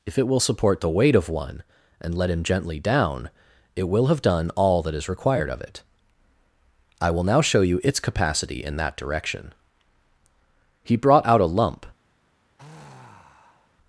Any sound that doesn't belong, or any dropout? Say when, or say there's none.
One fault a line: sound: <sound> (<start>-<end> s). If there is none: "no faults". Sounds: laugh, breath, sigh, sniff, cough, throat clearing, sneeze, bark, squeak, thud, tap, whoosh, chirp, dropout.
sound: sigh (12.6-13.8 s)